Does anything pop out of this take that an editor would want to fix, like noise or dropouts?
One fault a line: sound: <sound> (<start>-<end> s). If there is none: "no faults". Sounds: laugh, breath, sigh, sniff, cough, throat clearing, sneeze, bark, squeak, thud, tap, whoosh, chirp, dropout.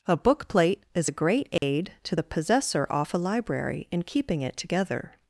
sound: dropout (1.6-1.6 s)